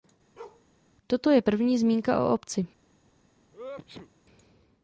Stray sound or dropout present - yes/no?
yes